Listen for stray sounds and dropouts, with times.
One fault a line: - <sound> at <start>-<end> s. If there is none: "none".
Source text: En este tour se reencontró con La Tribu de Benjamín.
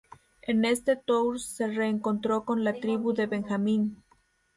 none